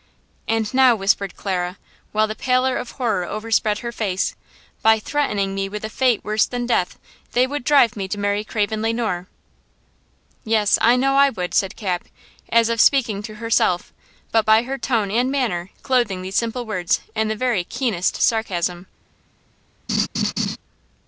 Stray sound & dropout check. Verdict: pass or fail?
fail